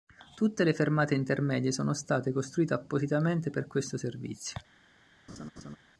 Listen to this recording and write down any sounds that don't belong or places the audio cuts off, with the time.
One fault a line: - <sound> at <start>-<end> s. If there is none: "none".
- laugh at 5.3-5.8 s